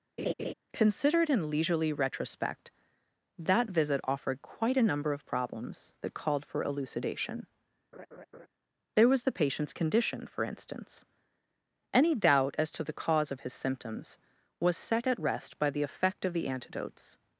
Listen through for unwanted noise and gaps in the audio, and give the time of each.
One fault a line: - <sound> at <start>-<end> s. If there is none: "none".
- laugh at 0.2-0.5 s
- laugh at 7.9-8.5 s